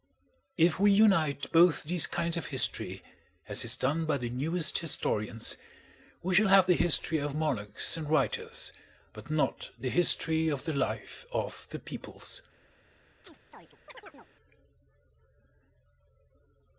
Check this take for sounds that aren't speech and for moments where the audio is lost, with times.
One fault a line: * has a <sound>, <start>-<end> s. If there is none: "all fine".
* has a chirp, 13.2-14.3 s